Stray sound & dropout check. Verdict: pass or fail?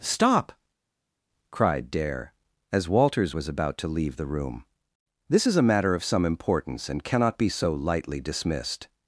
pass